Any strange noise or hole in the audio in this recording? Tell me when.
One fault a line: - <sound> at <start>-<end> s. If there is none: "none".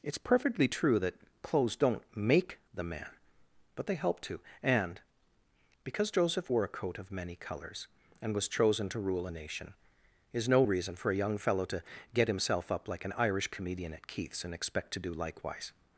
none